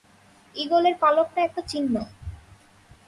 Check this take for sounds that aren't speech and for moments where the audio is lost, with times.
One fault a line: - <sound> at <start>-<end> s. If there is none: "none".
none